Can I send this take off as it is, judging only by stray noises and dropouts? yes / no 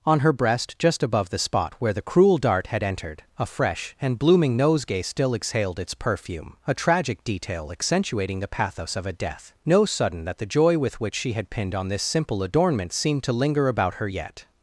yes